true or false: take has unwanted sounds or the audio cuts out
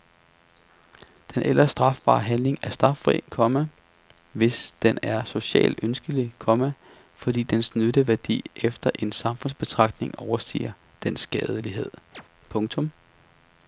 true